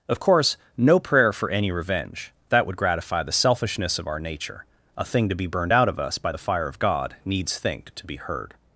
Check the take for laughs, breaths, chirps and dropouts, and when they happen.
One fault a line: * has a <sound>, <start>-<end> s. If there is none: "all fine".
all fine